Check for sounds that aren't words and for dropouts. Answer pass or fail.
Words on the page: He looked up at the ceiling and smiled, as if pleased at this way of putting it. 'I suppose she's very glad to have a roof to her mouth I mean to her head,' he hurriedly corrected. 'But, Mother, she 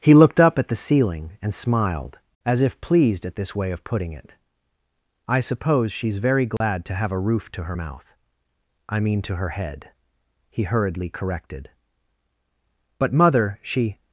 fail